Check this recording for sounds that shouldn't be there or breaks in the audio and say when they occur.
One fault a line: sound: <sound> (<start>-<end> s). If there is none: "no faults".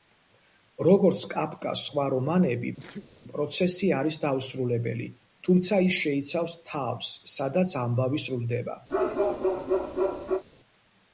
sound: sneeze (2.8-3.1 s)
sound: bark (8.9-10.4 s)